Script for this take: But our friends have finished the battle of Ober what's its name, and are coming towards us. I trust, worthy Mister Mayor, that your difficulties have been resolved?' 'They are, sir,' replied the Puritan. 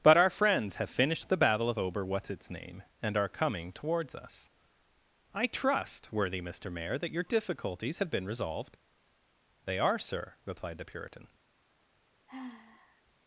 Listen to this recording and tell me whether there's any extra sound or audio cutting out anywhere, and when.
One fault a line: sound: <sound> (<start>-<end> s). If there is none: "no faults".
sound: sigh (12.3-13.0 s)